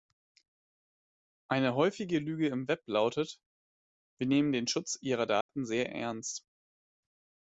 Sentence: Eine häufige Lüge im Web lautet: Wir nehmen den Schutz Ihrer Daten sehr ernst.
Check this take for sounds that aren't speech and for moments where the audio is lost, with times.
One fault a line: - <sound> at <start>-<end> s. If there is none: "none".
- dropout at 5.4-5.5 s